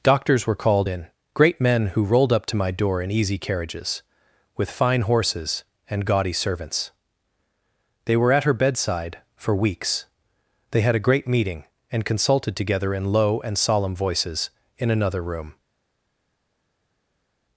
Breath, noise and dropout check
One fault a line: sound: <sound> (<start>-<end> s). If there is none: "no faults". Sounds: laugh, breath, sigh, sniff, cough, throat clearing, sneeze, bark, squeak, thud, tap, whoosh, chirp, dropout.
no faults